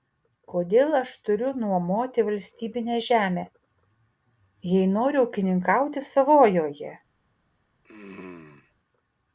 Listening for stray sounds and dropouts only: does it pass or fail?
fail